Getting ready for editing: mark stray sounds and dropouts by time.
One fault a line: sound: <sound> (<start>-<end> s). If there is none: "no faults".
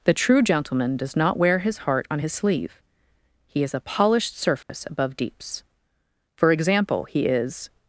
sound: dropout (4.6-4.7 s)